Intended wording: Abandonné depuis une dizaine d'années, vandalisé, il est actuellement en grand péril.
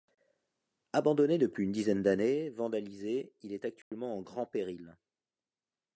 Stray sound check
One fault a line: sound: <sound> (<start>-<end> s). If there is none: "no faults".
sound: dropout (3.8-3.9 s)